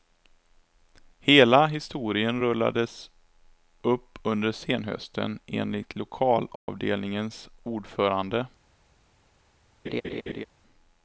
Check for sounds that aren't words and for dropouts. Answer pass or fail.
fail